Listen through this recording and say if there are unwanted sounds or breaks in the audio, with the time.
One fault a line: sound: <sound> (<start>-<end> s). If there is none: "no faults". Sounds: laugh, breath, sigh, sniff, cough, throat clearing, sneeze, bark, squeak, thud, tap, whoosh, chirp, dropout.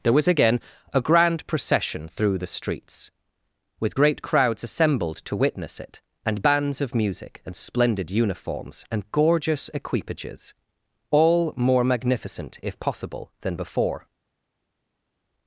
no faults